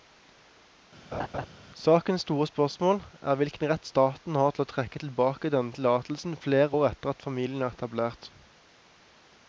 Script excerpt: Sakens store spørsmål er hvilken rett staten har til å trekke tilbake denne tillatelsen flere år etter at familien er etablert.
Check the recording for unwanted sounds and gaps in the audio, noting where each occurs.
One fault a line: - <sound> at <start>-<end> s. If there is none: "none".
- laugh at 1.1-1.5 s